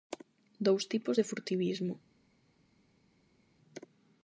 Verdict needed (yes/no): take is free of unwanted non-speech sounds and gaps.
yes